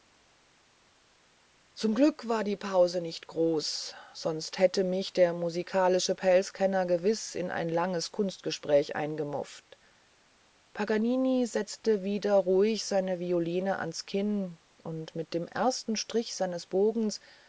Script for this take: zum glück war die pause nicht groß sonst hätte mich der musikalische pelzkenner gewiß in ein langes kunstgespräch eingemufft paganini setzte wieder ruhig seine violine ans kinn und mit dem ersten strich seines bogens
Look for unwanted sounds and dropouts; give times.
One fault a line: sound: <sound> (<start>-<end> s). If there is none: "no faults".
no faults